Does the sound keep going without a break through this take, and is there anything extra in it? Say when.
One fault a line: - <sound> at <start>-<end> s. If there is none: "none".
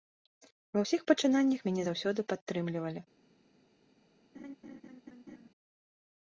- laugh at 4.3-5.5 s